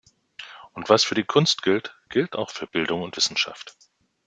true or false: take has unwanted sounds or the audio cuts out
false